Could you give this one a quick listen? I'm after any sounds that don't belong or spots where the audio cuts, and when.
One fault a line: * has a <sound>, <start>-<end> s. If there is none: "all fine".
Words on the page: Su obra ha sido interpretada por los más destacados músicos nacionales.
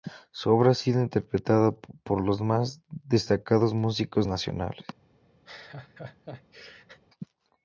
* has a laugh, 5.5-7.0 s